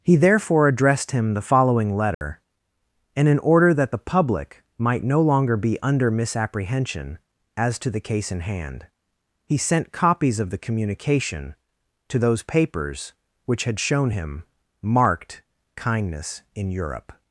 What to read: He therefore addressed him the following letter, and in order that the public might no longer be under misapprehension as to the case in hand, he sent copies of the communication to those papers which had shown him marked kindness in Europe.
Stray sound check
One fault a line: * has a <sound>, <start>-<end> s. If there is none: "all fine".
* has a dropout, 2.1-2.2 s